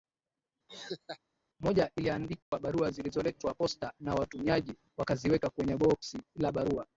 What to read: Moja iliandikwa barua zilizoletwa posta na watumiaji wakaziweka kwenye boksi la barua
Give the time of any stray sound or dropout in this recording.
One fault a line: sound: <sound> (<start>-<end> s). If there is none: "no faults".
sound: laugh (0.7-1.2 s)
sound: dropout (2.4-2.5 s)